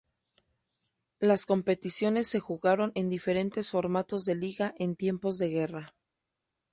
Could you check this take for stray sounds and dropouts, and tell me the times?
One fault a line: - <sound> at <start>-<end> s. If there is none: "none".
none